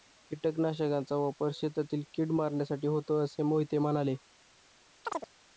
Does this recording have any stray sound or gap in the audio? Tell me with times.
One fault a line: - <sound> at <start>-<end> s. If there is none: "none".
- chirp at 5.0-5.3 s